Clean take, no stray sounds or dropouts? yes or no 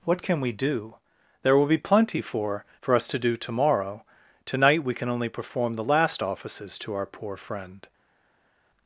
yes